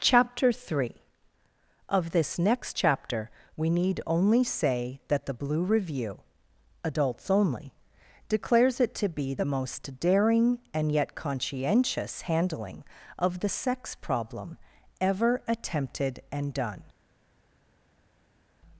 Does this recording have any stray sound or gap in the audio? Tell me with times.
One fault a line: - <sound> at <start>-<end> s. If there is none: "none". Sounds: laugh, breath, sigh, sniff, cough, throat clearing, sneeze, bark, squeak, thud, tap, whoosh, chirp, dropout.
none